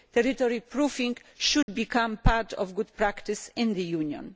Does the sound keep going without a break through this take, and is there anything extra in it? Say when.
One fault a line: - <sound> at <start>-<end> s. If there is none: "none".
- dropout at 1.6-1.7 s